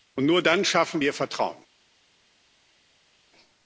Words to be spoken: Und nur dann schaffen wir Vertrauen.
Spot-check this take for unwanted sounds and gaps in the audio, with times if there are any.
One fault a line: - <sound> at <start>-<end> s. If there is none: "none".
none